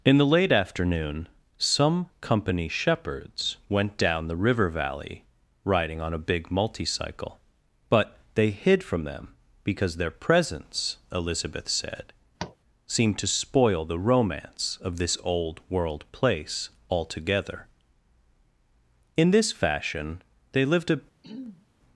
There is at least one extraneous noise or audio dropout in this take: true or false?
true